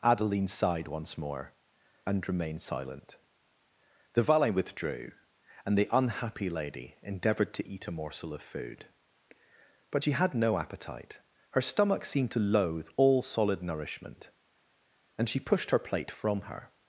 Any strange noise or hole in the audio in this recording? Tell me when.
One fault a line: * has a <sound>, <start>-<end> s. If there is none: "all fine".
all fine